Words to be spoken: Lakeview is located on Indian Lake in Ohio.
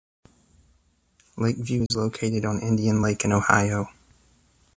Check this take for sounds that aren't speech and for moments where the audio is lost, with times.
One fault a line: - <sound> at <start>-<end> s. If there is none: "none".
- dropout at 1.9-1.9 s